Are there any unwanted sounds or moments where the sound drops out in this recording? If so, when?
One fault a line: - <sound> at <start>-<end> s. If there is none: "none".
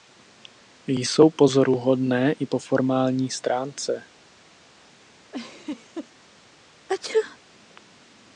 - laugh at 5.3-6.1 s
- sneeze at 6.9-7.4 s